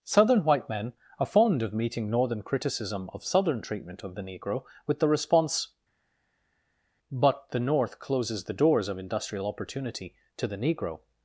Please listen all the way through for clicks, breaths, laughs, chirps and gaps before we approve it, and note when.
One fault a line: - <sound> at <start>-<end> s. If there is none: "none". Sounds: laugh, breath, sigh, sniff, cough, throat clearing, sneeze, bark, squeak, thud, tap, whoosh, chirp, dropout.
none